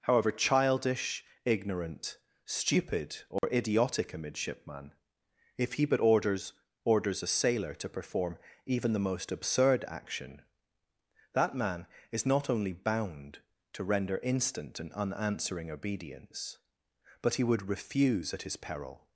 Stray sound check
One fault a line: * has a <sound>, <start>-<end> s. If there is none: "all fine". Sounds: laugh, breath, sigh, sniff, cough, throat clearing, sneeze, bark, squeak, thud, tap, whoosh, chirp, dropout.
* has a dropout, 3.4-3.4 s